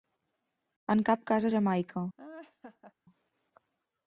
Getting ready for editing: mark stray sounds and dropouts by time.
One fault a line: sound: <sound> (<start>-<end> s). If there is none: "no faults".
sound: laugh (2.2-2.9 s)